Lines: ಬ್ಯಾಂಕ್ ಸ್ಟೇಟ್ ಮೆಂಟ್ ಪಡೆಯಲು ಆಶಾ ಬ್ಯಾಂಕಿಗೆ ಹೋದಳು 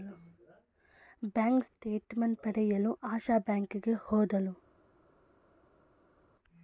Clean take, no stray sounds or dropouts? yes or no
yes